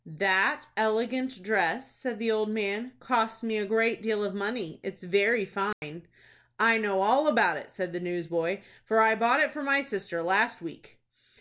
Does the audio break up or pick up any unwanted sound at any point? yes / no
yes